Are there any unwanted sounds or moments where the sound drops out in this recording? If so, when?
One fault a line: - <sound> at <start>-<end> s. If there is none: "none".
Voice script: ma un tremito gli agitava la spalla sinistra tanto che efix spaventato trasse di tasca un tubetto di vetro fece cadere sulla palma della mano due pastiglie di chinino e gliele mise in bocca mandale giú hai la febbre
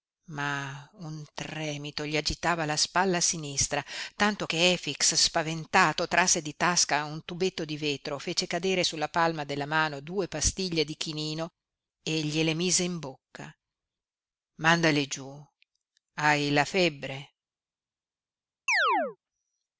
- chirp at 18.7-19.2 s